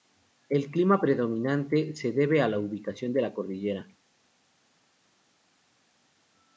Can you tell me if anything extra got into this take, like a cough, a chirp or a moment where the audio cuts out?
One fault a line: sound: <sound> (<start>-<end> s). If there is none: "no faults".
no faults